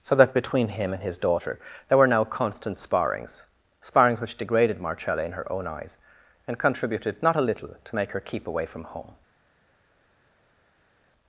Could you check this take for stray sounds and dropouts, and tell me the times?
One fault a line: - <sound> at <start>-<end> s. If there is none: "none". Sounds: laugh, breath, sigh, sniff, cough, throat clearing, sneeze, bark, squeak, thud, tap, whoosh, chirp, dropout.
none